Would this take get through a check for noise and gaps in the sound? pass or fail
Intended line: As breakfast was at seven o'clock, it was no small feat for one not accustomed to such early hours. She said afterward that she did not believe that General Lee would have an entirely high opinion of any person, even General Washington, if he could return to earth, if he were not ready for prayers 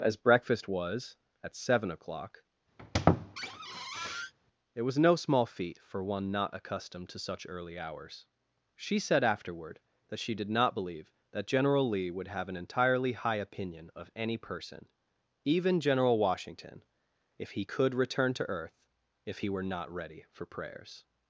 fail